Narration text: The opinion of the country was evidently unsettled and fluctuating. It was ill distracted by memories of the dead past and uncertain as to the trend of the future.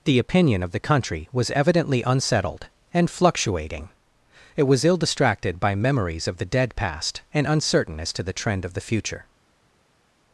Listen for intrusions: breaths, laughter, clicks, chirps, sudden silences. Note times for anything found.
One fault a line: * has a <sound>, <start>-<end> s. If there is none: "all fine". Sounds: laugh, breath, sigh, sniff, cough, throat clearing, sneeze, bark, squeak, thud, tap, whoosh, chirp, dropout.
all fine